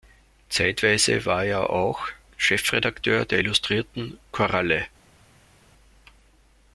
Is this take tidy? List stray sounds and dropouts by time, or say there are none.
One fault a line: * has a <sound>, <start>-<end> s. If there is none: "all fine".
all fine